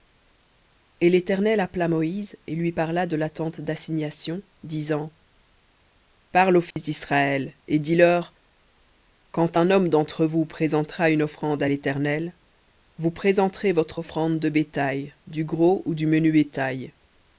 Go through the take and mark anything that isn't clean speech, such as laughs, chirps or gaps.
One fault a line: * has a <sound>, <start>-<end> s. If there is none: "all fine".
* has a dropout, 6.7-6.8 s